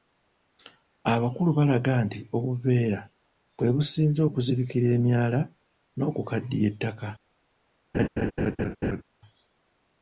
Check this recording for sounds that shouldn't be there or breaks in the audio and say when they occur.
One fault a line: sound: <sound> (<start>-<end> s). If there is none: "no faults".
sound: laugh (7.9-9.0 s)